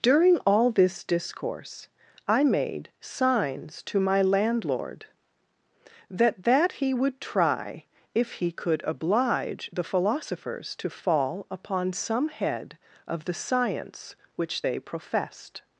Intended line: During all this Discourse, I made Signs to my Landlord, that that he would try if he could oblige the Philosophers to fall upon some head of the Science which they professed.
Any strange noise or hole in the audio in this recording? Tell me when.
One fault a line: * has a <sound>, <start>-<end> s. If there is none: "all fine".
all fine